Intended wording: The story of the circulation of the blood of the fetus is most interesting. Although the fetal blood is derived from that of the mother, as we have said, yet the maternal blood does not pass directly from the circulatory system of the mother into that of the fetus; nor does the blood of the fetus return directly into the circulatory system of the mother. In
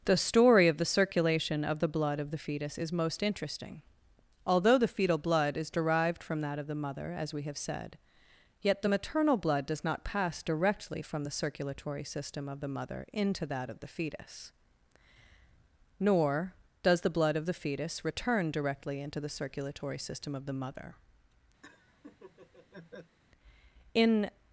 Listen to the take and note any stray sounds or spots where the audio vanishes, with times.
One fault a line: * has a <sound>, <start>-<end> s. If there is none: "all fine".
* has a laugh, 21.6-23.2 s